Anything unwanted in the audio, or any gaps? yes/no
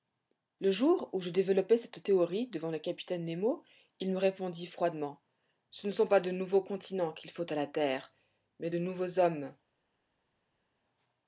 no